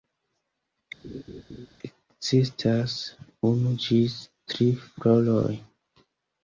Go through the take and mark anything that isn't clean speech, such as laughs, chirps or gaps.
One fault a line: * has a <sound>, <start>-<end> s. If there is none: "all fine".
* has a laugh, 1.0-1.7 s